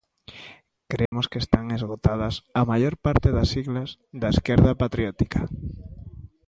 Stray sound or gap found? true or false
true